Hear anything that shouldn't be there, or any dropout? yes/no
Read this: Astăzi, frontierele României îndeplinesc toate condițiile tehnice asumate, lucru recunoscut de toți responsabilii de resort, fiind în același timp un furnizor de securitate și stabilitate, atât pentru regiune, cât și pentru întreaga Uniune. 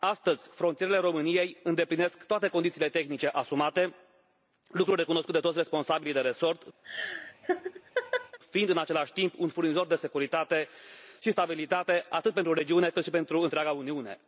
yes